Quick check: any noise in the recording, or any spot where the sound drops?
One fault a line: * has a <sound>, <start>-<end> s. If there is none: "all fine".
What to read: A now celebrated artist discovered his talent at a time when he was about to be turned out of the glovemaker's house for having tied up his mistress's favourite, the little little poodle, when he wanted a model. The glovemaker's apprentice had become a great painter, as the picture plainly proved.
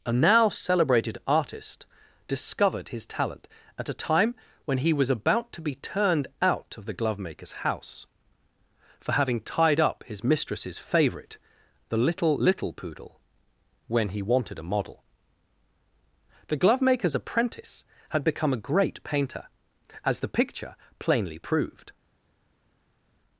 all fine